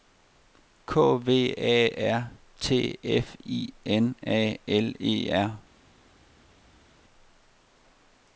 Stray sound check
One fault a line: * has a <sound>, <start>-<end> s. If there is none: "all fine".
all fine